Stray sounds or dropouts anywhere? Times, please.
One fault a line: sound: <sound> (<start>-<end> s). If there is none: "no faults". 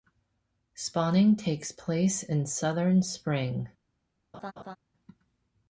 sound: laugh (4.3-4.8 s)